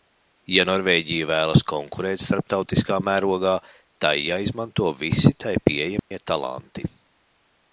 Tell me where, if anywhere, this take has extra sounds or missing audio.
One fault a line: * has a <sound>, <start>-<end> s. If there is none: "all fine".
* has a dropout, 6.0-6.1 s